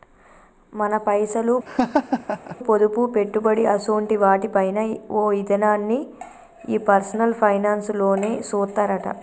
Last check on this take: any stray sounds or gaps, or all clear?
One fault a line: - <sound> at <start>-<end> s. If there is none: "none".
- laugh at 1.7-2.6 s